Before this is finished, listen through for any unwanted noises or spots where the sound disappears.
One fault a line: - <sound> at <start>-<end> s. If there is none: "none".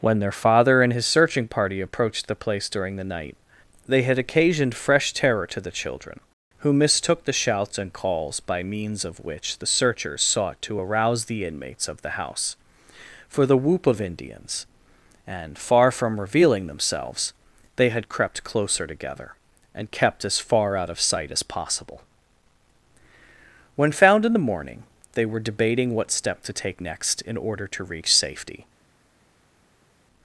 none